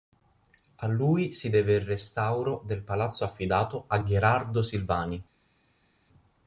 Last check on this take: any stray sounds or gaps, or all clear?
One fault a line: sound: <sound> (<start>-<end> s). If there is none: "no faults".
no faults